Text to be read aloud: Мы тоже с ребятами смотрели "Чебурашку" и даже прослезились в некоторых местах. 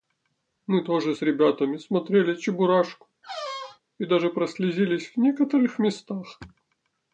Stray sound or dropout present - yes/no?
yes